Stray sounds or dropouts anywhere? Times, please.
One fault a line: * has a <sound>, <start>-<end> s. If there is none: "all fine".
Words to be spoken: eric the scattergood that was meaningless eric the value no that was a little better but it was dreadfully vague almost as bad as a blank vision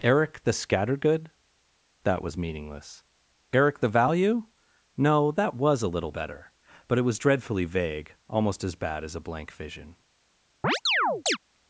* has a chirp, 10.6-11.4 s